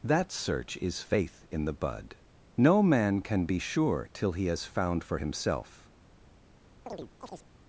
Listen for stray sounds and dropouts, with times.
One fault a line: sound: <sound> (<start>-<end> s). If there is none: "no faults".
sound: chirp (6.9-7.5 s)